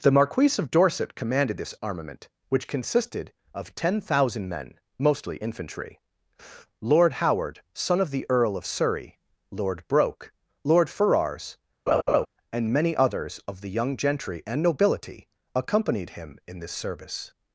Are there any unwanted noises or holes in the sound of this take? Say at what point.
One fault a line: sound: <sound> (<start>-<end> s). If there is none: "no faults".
sound: laugh (11.9-12.3 s)